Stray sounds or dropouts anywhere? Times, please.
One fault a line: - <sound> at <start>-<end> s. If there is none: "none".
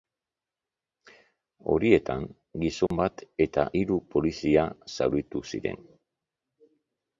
- dropout at 2.9-2.9 s